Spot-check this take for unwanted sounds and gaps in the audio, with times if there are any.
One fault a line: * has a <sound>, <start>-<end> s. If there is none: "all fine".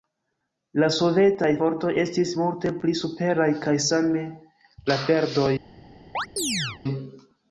* has a chirp, 6.1-6.8 s